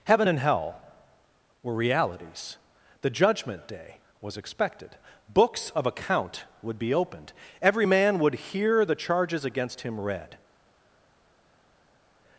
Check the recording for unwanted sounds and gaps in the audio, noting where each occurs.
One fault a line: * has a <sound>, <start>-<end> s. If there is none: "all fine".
all fine